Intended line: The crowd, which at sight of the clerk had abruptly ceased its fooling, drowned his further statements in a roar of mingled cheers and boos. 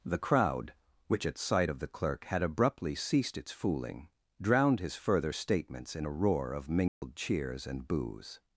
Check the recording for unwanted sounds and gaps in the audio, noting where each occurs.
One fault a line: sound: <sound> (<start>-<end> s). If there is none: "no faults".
sound: dropout (6.9-7.0 s)